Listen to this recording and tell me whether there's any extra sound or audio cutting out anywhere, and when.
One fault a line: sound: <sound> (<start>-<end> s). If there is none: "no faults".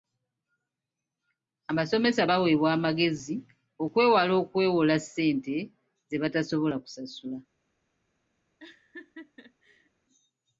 sound: laugh (8.6-9.9 s)